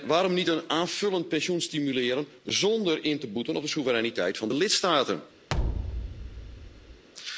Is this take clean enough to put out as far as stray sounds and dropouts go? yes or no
no